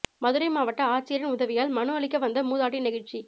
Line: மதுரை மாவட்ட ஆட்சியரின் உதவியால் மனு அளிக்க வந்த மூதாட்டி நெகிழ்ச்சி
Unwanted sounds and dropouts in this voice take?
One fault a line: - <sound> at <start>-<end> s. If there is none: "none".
none